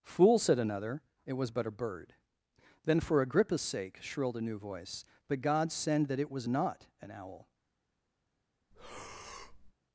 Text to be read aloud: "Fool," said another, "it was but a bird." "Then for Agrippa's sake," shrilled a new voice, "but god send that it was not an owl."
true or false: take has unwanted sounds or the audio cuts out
true